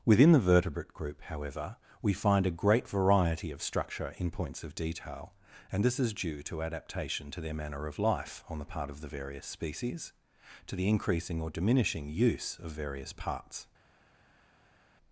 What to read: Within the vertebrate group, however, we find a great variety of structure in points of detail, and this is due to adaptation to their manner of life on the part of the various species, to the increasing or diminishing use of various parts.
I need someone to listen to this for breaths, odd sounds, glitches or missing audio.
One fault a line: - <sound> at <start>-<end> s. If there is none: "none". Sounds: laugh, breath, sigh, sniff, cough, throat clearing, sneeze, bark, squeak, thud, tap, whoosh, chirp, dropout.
none